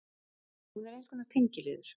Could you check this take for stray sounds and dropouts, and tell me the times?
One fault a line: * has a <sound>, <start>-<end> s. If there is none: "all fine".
all fine